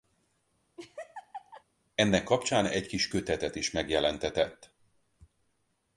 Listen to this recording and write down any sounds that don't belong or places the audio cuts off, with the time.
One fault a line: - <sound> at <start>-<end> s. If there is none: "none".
- laugh at 0.8-1.6 s